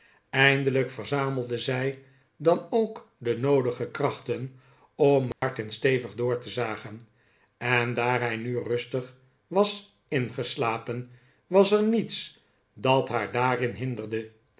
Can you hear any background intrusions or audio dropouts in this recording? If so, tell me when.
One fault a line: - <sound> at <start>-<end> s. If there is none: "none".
- dropout at 5.3-5.4 s